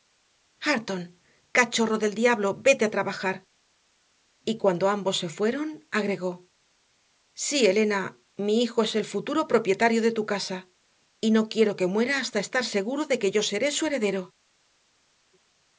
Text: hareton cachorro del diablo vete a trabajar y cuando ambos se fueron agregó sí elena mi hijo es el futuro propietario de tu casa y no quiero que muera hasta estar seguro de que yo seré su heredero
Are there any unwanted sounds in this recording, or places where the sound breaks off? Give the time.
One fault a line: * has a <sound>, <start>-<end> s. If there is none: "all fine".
all fine